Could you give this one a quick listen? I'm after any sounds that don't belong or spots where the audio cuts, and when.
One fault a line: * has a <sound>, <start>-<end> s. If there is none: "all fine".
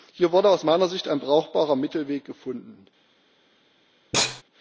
* has a sneeze, 4.1-4.4 s